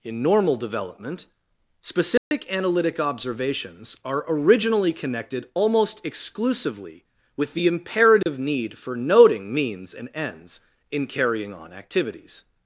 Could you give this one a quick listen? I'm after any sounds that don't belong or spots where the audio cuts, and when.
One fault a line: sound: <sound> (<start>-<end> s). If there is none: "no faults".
sound: dropout (2.2-2.3 s)
sound: dropout (8.2-8.3 s)